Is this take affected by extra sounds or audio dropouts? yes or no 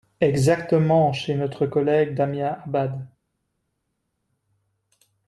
no